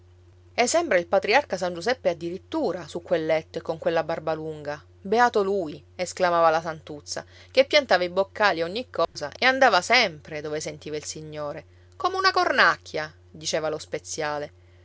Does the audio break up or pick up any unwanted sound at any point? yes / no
yes